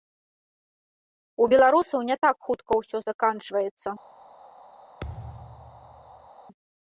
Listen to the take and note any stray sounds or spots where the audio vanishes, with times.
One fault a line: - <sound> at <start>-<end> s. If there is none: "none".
- thud at 5.0-6.3 s